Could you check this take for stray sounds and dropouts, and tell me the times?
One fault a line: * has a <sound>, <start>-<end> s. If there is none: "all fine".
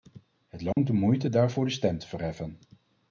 * has a dropout, 0.7-0.8 s